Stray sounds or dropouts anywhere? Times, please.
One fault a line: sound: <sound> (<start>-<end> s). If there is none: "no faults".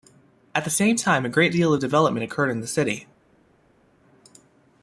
no faults